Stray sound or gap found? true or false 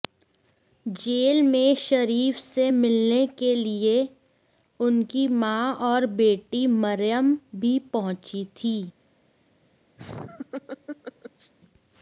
true